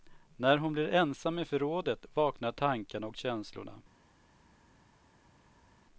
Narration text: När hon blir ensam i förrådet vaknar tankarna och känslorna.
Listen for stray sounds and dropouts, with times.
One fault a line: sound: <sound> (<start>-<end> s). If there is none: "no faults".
no faults